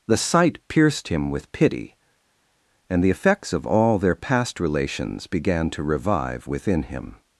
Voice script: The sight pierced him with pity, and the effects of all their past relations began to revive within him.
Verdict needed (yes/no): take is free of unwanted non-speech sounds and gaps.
yes